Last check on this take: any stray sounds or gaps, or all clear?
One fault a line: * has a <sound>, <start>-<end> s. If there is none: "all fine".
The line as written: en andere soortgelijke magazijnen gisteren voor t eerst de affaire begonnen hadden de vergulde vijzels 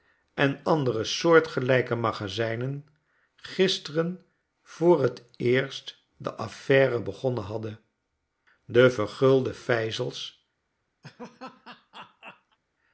* has a laugh, 11.0-12.6 s